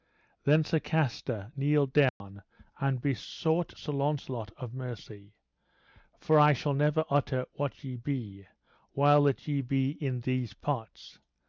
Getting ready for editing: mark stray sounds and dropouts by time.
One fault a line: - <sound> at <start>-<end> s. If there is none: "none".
- dropout at 2.1-2.2 s